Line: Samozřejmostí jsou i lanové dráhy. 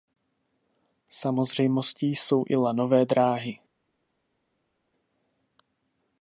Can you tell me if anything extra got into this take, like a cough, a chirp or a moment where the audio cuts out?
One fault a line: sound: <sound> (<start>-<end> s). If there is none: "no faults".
no faults